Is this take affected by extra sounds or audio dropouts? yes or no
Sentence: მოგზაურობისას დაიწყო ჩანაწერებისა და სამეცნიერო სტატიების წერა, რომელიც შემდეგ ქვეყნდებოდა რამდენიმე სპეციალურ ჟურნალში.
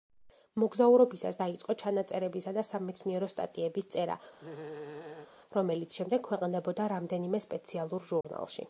yes